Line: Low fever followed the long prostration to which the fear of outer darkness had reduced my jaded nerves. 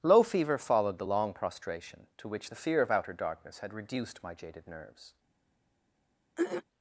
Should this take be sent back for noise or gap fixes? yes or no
yes